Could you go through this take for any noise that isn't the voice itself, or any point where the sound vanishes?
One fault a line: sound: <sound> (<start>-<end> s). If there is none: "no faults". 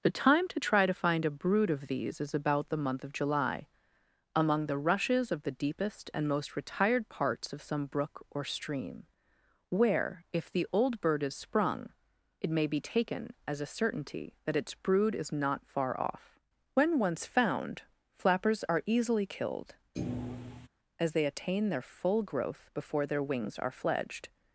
sound: thud (19.9-20.7 s)